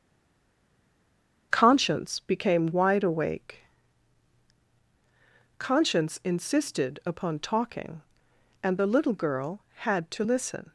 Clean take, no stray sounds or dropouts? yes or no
yes